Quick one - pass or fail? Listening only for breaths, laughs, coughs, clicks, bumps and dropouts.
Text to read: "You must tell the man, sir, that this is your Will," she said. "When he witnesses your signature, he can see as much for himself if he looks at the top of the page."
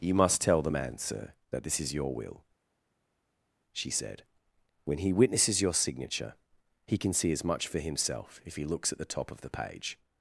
pass